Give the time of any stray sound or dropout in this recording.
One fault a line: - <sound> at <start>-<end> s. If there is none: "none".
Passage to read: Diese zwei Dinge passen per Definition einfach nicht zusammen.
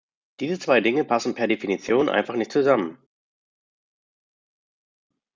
none